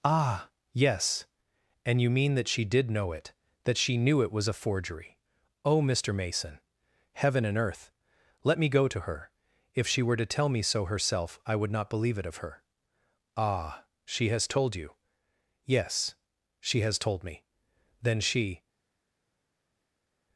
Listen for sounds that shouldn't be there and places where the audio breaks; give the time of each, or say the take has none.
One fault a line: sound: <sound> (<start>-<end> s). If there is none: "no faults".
no faults